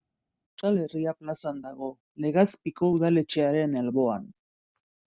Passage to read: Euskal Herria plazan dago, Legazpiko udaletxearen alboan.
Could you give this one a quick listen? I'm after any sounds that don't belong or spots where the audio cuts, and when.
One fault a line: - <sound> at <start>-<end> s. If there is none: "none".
none